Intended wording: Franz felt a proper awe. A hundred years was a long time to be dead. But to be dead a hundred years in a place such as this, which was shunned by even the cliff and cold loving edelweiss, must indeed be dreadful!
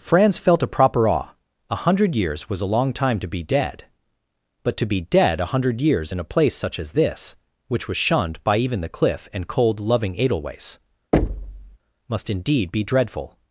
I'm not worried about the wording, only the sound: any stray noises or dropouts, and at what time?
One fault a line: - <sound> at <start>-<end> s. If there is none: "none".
- thud at 11.1-11.8 s